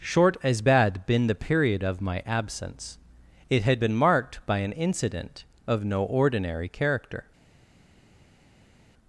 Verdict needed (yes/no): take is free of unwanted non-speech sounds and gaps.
yes